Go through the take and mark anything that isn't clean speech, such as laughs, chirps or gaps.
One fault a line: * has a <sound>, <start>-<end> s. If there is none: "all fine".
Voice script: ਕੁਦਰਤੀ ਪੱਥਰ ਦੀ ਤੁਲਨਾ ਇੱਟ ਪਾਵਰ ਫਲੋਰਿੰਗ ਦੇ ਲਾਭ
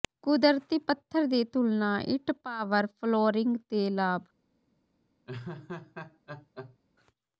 * has a laugh, 5.3-6.8 s